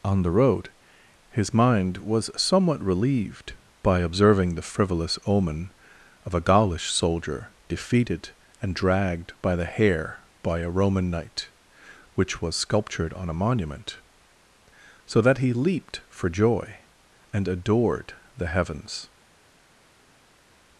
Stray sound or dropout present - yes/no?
no